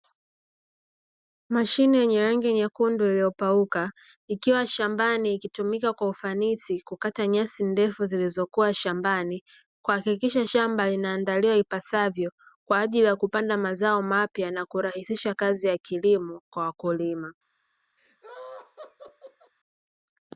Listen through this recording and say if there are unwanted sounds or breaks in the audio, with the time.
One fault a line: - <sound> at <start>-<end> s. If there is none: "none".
- laugh at 18.0-19.5 s